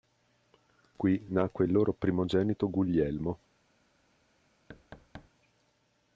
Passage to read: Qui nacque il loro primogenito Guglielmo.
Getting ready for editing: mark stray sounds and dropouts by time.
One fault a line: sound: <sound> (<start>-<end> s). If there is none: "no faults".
sound: thud (4.7-5.3 s)